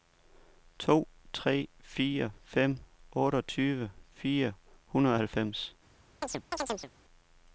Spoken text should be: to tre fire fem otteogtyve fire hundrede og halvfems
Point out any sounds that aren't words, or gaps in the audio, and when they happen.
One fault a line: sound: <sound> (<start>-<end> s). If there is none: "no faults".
sound: chirp (6.2-6.9 s)